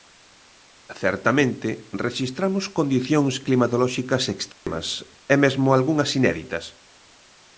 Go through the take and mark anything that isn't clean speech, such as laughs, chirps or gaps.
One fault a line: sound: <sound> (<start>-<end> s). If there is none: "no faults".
sound: dropout (4.5-4.7 s)